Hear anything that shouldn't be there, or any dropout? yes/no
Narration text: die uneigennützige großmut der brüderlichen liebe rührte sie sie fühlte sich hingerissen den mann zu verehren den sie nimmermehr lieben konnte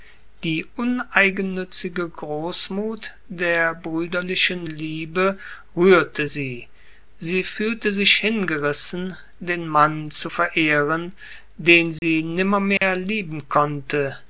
yes